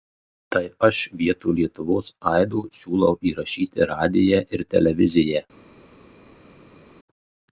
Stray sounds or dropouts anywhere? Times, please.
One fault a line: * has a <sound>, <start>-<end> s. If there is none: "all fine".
all fine